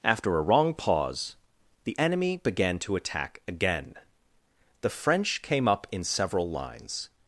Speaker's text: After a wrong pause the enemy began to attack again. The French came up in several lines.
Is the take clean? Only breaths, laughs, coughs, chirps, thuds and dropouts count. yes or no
yes